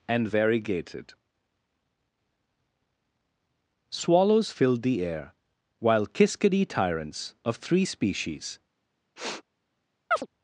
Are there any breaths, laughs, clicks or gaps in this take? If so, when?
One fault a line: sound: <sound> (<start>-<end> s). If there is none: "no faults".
sound: sniff (9.2-9.4 s)
sound: chirp (10.1-10.3 s)